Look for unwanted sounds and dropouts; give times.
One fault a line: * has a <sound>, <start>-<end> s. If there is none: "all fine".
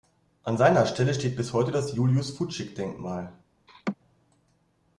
* has a laugh, 3.7-4.0 s